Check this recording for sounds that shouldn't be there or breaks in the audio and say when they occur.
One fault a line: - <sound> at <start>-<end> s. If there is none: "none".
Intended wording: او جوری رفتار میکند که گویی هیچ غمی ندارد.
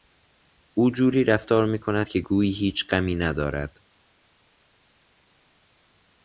none